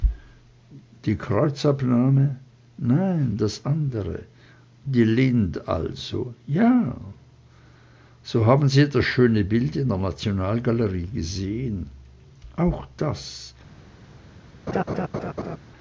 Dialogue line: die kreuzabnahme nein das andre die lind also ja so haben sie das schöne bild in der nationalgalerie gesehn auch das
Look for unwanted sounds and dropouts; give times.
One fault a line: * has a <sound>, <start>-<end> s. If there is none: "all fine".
* has a laugh, 14.7-15.6 s